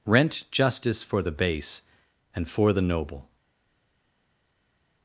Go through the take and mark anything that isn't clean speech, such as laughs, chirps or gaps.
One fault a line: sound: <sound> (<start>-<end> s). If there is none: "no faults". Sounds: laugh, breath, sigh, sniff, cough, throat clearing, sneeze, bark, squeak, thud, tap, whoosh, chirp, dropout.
no faults